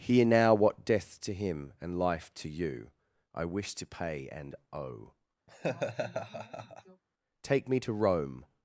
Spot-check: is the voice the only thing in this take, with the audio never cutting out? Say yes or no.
no